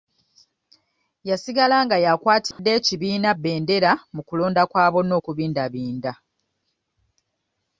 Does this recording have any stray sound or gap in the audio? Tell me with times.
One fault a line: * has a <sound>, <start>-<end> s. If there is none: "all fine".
* has a dropout, 2.5-2.6 s